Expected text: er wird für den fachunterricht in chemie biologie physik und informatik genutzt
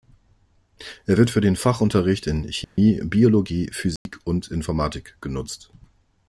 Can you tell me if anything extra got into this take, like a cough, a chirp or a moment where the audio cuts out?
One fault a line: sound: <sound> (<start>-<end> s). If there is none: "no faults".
sound: dropout (2.6-2.8 s)
sound: dropout (4.0-4.1 s)